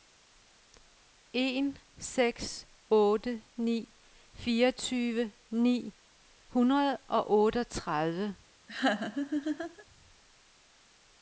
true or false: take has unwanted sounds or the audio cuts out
true